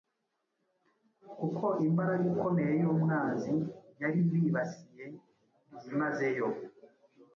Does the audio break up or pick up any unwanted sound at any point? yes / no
no